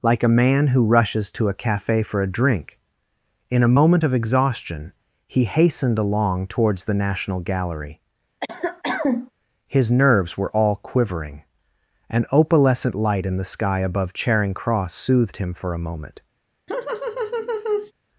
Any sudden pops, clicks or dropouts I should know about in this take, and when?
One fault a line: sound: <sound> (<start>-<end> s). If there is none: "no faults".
sound: cough (8.4-9.3 s)
sound: laugh (16.7-17.9 s)